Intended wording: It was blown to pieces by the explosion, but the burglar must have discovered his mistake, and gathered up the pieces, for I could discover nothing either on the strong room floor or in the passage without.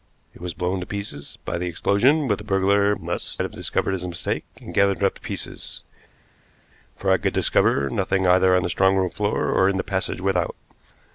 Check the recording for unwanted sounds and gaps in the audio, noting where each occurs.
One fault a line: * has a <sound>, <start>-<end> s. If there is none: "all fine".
all fine